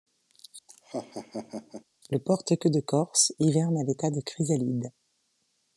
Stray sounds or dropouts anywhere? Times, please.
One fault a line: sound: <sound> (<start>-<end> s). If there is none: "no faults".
sound: laugh (0.7-1.8 s)